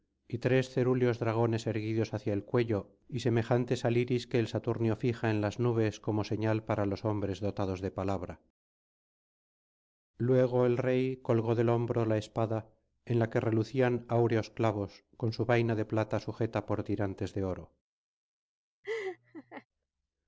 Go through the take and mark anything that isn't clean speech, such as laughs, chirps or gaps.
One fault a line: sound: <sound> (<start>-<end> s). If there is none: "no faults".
sound: laugh (18.8-19.7 s)